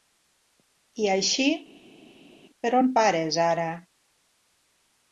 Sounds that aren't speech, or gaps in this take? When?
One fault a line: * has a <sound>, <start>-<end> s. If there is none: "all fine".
all fine